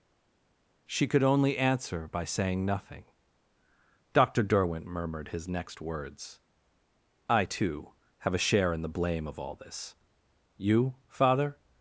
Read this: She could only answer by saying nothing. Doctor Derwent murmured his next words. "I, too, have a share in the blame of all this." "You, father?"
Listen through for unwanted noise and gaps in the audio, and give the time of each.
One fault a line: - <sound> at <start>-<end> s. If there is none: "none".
none